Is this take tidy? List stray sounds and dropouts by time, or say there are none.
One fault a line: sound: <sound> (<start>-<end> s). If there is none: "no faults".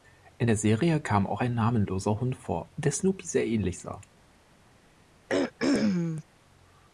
sound: throat clearing (5.3-6.2 s)